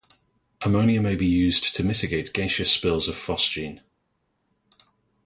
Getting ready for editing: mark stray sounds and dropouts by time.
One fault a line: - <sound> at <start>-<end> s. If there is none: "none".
none